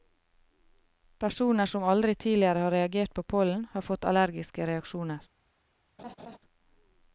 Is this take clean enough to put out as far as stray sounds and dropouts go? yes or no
no